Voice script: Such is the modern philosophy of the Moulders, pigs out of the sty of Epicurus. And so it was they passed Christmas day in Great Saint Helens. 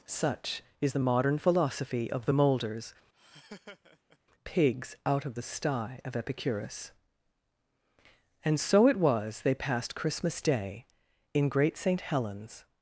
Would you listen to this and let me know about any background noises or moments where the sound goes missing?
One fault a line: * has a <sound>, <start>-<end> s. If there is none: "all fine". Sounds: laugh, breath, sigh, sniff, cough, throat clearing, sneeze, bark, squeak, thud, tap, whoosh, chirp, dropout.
* has a laugh, 3.1-4.2 s